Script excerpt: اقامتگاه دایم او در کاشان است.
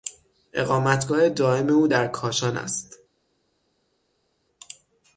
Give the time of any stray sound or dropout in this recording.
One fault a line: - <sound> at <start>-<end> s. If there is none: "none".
none